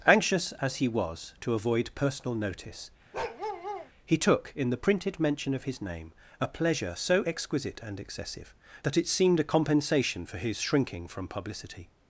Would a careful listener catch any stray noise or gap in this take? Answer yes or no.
yes